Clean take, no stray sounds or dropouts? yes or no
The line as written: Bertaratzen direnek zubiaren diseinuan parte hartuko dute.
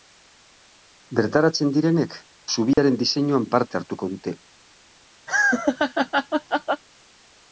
no